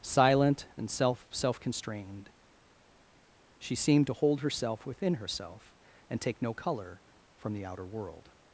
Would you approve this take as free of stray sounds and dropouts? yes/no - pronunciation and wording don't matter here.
yes